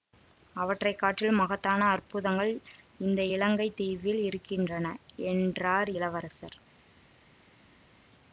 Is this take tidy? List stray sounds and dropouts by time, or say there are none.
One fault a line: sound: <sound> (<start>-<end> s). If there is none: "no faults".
no faults